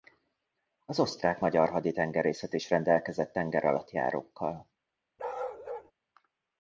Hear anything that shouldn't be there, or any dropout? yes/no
yes